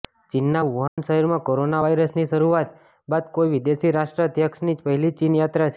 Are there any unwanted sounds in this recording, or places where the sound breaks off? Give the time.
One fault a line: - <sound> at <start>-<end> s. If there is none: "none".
- dropout at 0.9-1.0 s